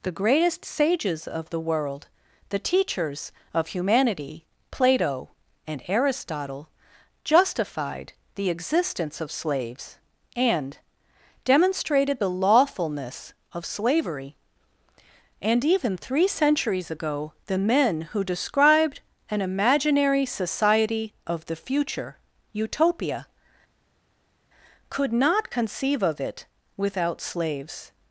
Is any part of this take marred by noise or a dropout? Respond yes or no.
no